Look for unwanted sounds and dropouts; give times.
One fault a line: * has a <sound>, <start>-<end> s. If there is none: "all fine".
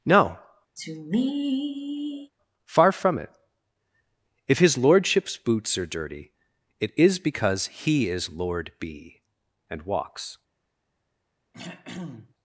* has a sigh, 0.8-2.3 s
* has a throat clearing, 11.5-12.3 s